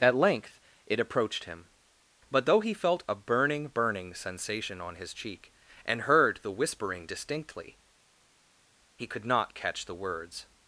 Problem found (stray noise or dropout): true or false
false